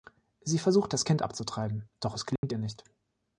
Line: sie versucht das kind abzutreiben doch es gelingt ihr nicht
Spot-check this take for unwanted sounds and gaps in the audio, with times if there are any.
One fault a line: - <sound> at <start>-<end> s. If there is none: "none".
- dropout at 2.4-2.4 s